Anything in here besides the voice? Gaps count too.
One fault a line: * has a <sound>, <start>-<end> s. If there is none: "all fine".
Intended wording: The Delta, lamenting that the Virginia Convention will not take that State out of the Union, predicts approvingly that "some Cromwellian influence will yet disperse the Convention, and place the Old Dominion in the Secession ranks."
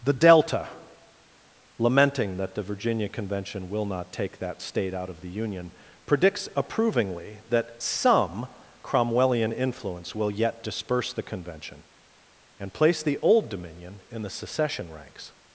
all fine